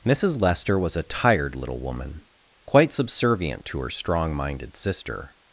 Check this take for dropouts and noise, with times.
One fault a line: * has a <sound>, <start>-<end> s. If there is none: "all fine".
all fine